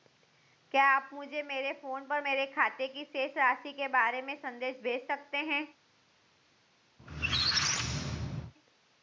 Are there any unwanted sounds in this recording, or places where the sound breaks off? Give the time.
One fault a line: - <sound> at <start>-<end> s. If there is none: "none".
- squeak at 7.0-8.5 s